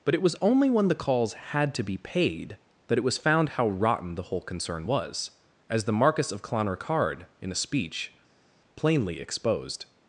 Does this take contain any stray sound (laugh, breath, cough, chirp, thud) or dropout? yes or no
no